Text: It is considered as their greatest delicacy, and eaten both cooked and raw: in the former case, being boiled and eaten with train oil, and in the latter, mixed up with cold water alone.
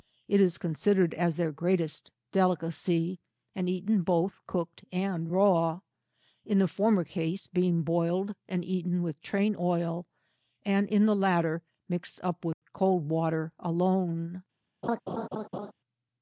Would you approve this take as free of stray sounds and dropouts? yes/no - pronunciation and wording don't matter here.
no